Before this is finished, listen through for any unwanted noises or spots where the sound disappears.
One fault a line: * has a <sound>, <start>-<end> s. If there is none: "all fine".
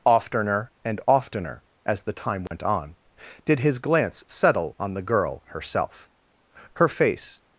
* has a dropout, 2.5-2.5 s